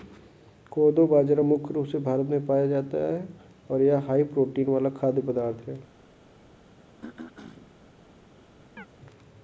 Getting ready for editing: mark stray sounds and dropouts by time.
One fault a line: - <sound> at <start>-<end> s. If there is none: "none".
- throat clearing at 7.0-7.7 s
- chirp at 8.8-8.9 s